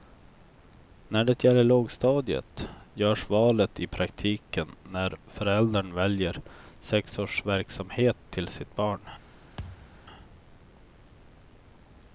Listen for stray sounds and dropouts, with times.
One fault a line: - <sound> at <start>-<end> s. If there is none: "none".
- thud at 9.6-10.0 s